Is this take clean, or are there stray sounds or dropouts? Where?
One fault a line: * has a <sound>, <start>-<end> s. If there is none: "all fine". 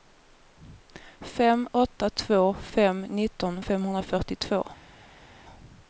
all fine